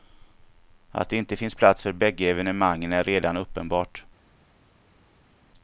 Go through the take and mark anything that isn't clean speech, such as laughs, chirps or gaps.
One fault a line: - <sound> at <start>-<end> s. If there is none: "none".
none